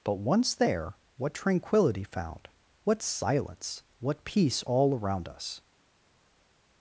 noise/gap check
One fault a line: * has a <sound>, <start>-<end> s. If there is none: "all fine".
all fine